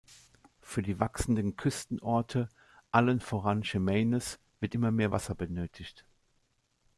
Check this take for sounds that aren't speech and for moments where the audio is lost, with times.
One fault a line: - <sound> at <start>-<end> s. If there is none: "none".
none